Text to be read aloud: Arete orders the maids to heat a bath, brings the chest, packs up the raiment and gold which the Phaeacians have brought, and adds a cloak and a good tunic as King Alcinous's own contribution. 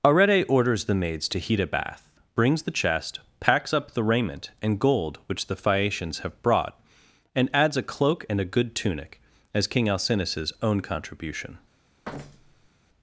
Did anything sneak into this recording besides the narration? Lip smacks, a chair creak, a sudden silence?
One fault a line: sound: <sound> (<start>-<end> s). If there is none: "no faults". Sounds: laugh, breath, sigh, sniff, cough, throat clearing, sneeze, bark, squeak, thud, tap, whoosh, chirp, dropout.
sound: thud (12.0-12.7 s)